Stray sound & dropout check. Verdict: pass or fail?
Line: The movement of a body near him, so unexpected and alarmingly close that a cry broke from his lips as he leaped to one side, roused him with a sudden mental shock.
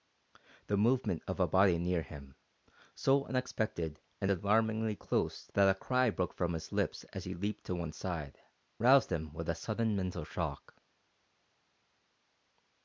pass